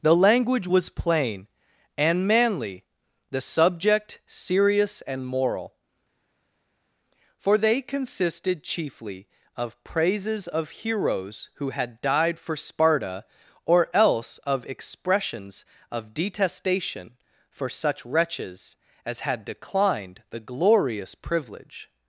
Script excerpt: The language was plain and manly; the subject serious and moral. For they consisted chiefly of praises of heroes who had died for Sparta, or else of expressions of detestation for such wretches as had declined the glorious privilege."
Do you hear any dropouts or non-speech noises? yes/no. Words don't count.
no